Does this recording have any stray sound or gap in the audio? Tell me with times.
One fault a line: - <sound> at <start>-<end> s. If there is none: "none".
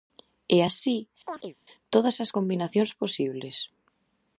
- chirp at 1.3-1.6 s